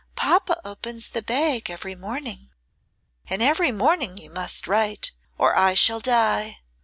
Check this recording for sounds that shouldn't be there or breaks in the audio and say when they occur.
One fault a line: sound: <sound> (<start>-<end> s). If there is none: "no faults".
no faults